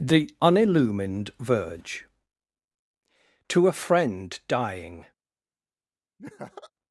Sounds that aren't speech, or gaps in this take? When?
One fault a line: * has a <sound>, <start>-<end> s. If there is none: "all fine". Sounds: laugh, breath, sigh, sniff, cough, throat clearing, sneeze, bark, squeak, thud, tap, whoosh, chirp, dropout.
* has a laugh, 6.2-6.7 s